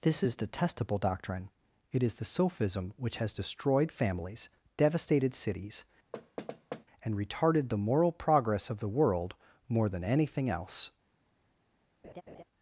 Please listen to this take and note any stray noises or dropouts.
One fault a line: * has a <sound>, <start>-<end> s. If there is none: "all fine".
* has a thud, 6.1-6.8 s
* has a laugh, 12.0-12.4 s